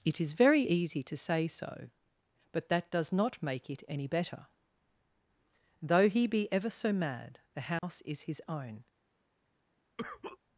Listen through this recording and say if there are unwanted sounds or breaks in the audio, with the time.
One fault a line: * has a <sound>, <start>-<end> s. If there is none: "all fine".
* has a dropout, 7.8-7.8 s
* has a cough, 10.0-10.4 s